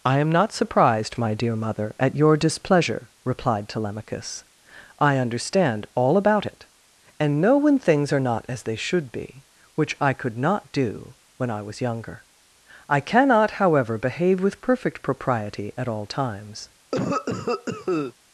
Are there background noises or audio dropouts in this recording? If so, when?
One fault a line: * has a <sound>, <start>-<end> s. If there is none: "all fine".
* has a cough, 16.9-18.1 s